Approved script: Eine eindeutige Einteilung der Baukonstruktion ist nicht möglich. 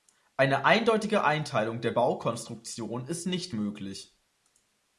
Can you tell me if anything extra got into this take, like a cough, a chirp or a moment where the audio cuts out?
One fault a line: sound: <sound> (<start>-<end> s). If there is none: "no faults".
no faults